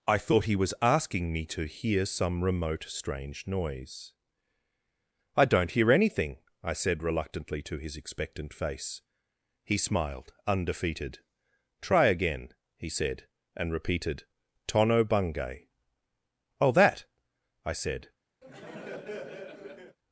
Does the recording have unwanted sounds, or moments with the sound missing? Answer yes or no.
yes